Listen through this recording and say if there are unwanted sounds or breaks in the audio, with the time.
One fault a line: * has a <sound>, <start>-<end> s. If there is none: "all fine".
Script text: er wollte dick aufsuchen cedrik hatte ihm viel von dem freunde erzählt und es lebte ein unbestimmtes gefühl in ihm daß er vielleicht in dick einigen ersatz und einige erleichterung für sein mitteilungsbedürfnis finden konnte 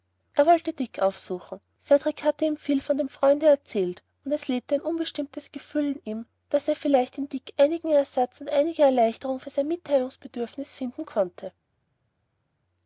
all fine